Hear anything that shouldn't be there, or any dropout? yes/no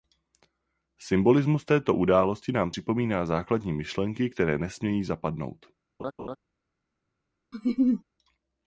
yes